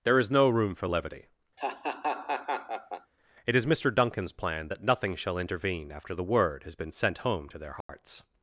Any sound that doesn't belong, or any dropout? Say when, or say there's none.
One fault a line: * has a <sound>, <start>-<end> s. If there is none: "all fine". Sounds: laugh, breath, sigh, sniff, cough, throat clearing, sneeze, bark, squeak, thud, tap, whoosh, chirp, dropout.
* has a laugh, 1.6-3.1 s
* has a dropout, 7.8-7.9 s